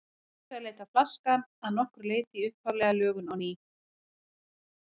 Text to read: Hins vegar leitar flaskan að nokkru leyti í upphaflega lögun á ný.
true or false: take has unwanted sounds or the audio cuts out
false